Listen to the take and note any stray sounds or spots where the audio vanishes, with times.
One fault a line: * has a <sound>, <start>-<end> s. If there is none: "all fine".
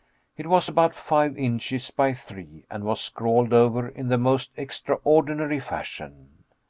all fine